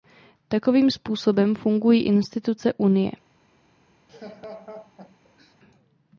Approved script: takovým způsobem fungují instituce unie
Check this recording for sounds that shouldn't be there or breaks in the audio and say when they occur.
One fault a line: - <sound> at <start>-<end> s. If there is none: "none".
- laugh at 4.1-5.6 s